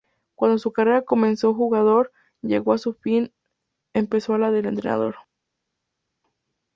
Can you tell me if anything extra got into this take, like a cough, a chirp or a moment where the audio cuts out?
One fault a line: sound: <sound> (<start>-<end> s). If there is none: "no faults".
no faults